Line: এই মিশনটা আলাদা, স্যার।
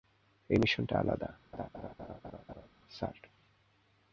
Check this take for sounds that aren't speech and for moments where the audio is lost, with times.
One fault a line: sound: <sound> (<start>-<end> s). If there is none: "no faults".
sound: laugh (1.5-2.7 s)